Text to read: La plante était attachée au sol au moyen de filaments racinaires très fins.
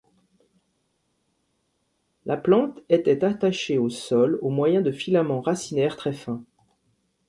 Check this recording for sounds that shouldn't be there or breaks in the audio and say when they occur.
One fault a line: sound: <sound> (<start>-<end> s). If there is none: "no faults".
no faults